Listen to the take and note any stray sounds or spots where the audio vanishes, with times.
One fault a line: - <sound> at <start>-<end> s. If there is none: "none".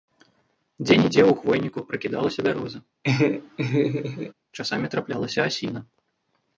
- laugh at 3.0-4.3 s